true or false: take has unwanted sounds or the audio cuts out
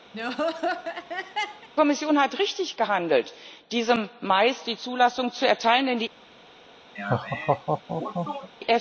true